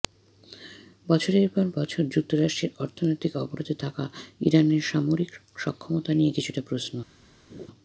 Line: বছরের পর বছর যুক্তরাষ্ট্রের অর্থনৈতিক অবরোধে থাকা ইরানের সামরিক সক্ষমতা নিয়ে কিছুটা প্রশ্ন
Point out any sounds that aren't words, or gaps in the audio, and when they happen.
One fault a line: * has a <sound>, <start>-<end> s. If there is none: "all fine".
* has a laugh, 7.5-7.7 s